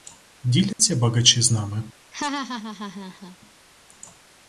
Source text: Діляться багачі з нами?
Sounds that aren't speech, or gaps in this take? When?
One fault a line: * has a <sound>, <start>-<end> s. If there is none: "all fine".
* has a dropout, 0.7-0.8 s
* has a laugh, 2.1-3.4 s